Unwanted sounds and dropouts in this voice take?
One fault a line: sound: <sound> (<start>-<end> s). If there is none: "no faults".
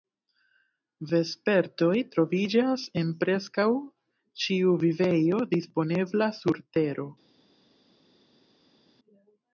no faults